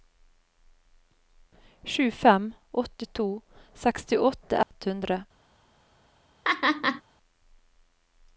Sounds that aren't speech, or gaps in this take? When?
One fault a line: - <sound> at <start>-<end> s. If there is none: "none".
- dropout at 4.6-4.7 s
- laugh at 6.4-7.0 s